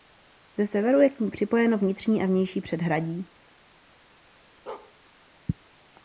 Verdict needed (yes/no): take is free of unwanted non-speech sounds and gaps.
no